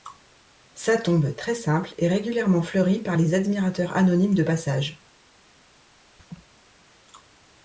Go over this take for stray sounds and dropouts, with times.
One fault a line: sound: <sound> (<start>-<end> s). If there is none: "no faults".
sound: laugh (6.2-6.5 s)